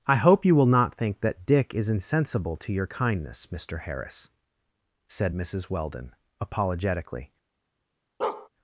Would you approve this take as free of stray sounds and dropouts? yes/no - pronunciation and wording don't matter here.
no